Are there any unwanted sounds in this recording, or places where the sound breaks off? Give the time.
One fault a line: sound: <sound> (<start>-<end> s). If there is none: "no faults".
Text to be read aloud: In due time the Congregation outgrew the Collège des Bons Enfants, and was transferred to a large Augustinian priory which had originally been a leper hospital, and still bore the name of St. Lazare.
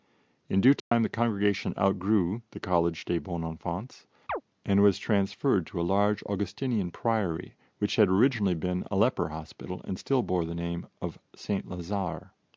sound: dropout (0.8-0.9 s)
sound: chirp (4.3-4.4 s)